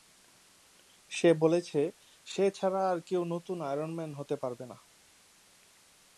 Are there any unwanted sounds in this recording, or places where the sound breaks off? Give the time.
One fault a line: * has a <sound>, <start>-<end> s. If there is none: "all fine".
all fine